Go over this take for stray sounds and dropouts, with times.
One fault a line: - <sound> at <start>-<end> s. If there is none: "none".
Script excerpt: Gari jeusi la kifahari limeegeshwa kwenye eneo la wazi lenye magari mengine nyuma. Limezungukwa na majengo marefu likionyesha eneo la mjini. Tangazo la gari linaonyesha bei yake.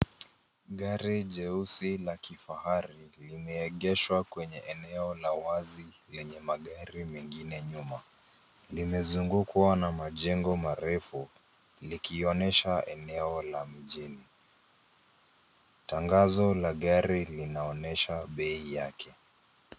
none